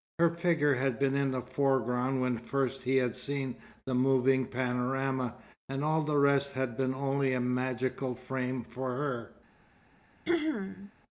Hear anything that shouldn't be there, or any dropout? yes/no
yes